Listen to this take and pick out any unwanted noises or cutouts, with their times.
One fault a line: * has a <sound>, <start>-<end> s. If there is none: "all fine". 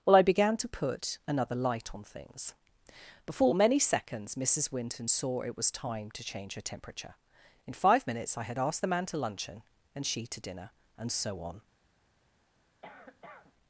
* has a cough, 12.8-13.5 s